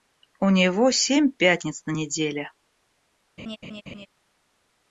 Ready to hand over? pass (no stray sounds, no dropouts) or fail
fail